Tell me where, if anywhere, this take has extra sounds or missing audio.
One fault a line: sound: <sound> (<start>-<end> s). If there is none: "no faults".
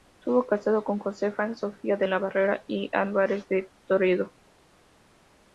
no faults